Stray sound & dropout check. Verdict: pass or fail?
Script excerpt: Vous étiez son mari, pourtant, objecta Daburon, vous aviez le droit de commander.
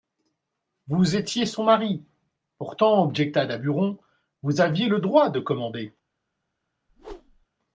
fail